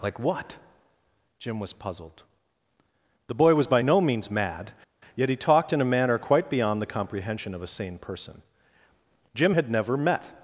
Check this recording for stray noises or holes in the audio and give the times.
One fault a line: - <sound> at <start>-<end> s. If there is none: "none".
none